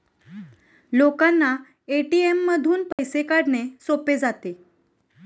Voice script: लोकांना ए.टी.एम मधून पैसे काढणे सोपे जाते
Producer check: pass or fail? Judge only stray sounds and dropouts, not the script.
fail